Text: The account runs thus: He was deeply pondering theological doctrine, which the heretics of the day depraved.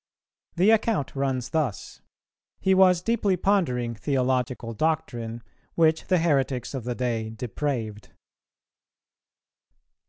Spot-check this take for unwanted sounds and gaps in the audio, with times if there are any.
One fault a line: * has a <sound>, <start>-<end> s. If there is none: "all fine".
all fine